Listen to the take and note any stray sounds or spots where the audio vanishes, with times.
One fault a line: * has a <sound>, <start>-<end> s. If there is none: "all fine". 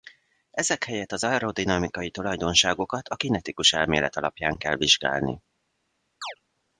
* has a chirp, 6.2-6.4 s